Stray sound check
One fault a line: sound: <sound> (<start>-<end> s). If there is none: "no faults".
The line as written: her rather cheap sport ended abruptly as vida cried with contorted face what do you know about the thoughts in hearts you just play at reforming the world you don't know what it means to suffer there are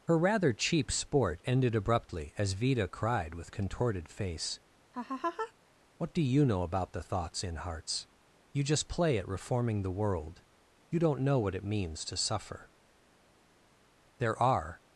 sound: laugh (4.9-5.5 s)